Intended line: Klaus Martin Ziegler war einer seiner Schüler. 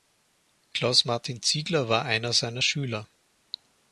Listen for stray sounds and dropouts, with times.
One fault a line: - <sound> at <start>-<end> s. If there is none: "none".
none